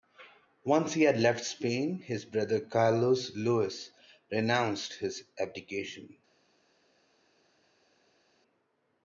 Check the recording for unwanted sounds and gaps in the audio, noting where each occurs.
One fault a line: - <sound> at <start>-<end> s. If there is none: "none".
none